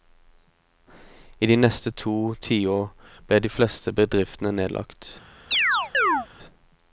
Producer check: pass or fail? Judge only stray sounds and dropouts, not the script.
fail